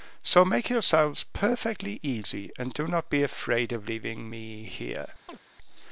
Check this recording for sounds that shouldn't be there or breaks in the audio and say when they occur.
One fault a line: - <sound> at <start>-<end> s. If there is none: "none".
- chirp at 5.3-5.4 s